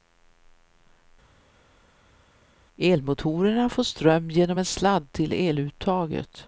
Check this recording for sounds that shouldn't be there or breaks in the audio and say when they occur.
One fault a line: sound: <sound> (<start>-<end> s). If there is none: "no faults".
no faults